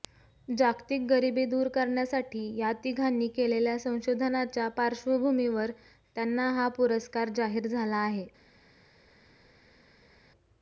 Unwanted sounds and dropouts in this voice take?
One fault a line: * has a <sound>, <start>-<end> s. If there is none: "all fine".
all fine